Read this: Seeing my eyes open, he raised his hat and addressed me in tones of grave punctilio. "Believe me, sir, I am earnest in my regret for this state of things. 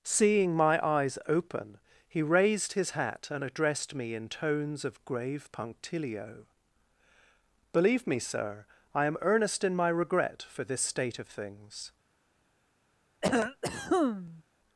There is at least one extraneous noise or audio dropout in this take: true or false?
true